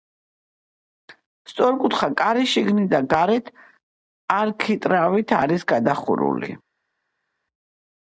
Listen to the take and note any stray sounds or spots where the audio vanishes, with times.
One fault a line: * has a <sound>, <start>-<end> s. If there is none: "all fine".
all fine